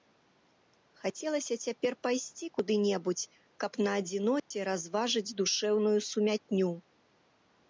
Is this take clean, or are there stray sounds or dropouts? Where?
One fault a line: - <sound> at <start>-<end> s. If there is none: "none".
- dropout at 4.4-4.5 s